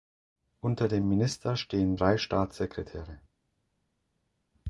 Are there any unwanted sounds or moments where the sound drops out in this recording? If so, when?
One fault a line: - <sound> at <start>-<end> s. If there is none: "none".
none